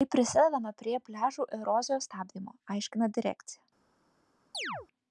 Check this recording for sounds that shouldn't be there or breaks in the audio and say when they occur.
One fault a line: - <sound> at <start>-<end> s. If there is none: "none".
- chirp at 4.5-4.9 s